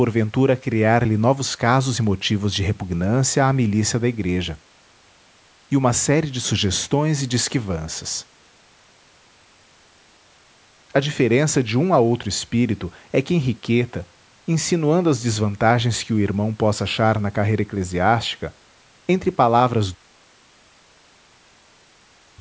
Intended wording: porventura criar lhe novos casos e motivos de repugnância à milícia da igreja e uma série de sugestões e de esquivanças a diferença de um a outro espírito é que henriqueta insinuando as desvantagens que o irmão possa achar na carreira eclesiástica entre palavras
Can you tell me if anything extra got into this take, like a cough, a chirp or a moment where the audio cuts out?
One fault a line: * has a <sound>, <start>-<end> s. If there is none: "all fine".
all fine